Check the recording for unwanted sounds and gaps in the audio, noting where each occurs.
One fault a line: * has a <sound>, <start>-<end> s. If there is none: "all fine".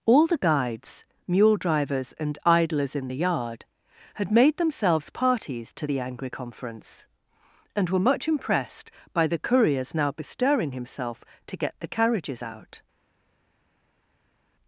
all fine